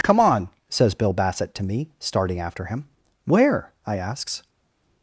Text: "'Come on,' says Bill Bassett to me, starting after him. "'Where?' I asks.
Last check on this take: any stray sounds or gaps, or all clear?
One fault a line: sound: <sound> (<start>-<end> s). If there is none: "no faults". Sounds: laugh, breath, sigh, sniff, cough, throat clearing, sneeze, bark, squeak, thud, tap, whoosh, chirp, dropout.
no faults